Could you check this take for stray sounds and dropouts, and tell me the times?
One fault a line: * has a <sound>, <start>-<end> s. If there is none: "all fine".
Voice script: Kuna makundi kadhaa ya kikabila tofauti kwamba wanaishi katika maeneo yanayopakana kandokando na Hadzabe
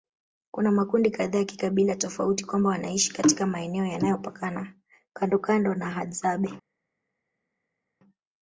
all fine